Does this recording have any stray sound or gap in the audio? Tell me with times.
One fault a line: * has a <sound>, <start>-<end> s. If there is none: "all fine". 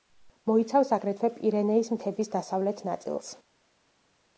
all fine